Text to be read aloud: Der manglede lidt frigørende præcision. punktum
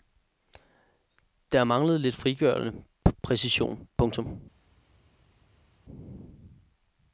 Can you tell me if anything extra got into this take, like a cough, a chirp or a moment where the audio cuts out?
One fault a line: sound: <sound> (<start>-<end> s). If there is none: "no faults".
no faults